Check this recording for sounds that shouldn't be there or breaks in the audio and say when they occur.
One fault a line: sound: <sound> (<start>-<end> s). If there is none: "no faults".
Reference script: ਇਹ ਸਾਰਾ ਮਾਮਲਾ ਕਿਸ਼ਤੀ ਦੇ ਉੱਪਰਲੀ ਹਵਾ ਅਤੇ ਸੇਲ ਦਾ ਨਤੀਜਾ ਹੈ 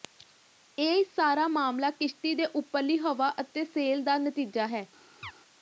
sound: chirp (5.2-5.3 s)